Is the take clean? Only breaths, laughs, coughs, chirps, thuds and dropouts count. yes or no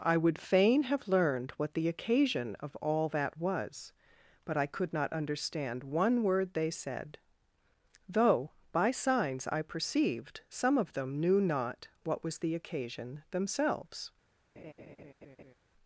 no